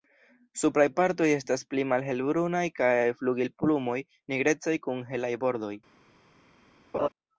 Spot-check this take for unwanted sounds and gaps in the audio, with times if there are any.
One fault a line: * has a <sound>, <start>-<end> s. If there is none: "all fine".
* has a laugh, 6.9-7.1 s